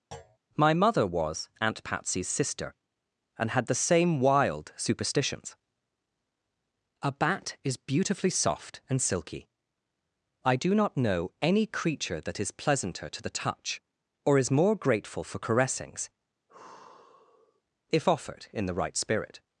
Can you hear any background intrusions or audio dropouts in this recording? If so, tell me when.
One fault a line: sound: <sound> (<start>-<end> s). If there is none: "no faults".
sound: thud (0.1-0.4 s)
sound: sigh (16.5-17.6 s)